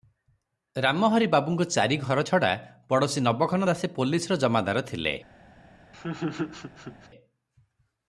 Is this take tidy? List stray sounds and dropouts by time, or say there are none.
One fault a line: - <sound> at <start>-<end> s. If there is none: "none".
- laugh at 5.9-7.1 s